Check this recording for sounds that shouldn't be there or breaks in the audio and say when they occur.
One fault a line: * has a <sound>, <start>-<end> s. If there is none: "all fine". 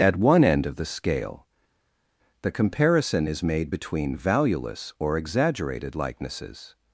all fine